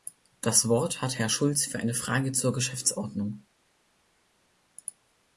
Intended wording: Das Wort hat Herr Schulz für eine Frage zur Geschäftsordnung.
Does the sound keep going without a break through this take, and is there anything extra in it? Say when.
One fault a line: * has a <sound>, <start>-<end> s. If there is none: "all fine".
all fine